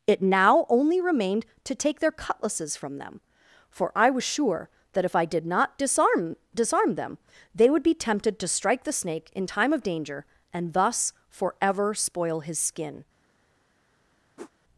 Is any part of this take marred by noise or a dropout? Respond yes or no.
yes